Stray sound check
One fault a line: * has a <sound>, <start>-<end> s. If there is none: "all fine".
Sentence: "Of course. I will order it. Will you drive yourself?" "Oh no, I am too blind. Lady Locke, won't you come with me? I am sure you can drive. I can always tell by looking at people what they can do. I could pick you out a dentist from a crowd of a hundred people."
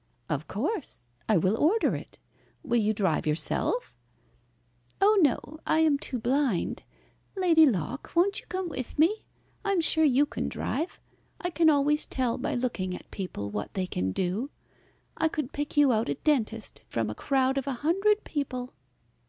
all fine